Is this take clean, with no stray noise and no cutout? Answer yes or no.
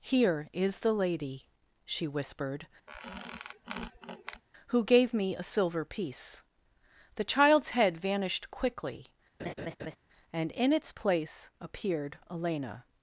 no